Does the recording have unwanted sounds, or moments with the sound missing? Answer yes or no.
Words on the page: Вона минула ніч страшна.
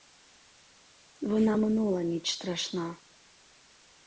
no